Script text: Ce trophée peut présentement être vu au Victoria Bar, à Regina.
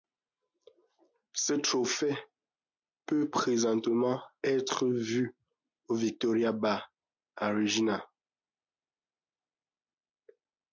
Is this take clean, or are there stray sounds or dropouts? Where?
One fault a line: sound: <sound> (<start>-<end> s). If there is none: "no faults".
no faults